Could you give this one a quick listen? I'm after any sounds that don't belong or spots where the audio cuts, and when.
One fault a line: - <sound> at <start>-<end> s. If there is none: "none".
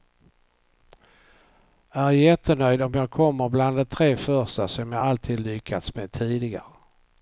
none